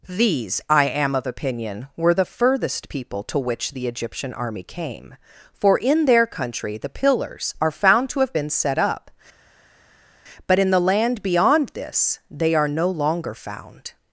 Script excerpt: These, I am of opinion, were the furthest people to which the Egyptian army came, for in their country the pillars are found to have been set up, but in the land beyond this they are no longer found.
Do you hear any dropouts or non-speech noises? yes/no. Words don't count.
no